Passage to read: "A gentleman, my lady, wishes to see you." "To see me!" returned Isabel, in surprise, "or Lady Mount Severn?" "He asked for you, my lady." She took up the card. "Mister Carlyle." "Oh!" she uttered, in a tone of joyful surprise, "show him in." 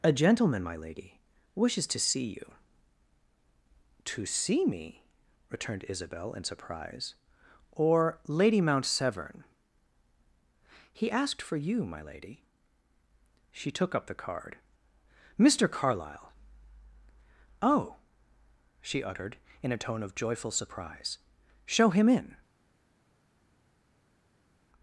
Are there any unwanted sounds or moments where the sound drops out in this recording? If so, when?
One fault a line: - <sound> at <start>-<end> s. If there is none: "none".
none